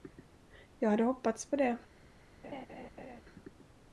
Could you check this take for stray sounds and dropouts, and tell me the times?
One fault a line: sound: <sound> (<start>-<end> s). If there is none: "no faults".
sound: laugh (2.4-3.2 s)